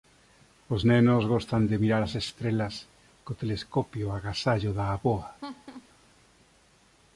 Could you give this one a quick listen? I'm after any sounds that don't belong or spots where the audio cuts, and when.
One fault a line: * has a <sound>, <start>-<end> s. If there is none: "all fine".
* has a laugh, 5.4-5.9 s